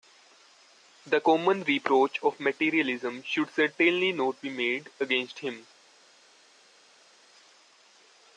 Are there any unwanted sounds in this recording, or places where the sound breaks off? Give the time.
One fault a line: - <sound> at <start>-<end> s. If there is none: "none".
none